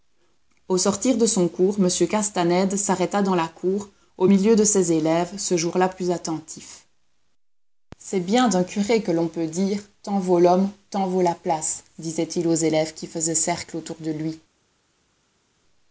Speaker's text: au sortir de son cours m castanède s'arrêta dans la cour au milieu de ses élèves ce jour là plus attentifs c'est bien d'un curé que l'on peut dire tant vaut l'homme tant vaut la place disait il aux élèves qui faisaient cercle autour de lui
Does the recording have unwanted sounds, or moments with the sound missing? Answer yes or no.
no